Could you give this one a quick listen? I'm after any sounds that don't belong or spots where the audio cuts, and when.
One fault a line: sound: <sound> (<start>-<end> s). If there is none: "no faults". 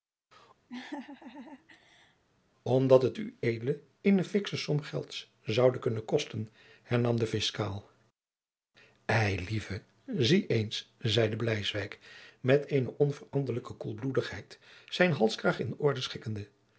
sound: laugh (0.7-2.2 s)